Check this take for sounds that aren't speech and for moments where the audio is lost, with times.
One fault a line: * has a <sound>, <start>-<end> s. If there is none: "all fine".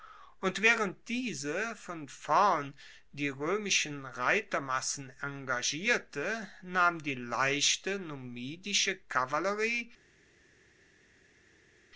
all fine